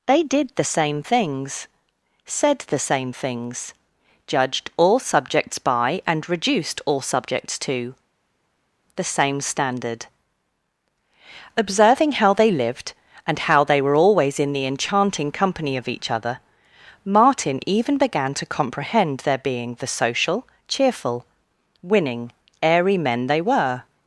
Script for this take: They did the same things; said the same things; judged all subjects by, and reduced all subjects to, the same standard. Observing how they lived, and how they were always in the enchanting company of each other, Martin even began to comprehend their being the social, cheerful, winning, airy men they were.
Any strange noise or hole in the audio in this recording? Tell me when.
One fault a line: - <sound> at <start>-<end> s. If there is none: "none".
none